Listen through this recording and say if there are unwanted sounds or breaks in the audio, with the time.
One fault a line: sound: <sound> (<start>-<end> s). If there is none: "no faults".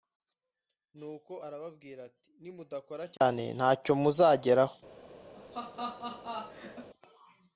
sound: laugh (5.3-6.9 s)